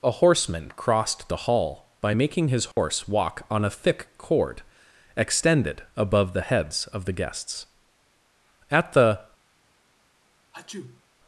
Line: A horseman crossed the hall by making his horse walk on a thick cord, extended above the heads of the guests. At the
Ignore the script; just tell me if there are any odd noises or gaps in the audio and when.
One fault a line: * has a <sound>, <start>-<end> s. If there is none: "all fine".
* has a dropout, 2.7-2.8 s
* has a sneeze, 10.5-11.0 s